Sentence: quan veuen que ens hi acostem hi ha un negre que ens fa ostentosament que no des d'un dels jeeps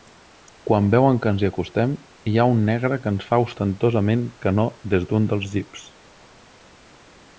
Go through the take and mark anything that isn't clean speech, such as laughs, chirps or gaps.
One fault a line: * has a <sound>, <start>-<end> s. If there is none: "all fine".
all fine